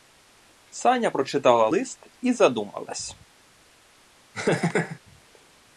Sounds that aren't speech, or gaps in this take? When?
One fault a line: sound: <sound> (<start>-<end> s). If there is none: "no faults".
sound: laugh (4.3-5.0 s)